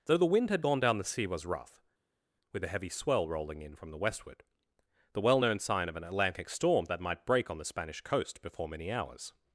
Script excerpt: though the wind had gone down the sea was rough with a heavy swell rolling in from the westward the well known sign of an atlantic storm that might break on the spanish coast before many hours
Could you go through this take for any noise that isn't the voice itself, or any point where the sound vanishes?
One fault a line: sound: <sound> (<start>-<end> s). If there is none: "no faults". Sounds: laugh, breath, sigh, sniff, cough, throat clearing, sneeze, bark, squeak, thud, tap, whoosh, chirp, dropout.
no faults